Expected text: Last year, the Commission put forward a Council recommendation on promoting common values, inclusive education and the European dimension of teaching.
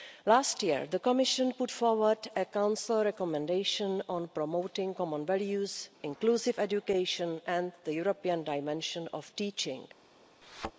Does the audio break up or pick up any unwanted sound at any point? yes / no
yes